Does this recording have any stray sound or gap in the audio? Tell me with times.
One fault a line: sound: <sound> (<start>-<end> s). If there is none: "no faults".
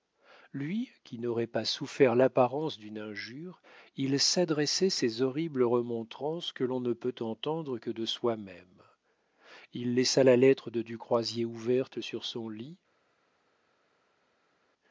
no faults